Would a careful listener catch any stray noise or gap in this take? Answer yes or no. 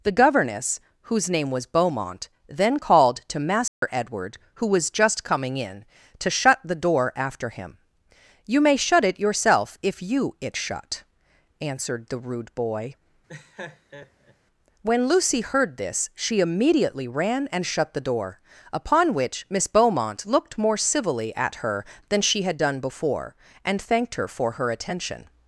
yes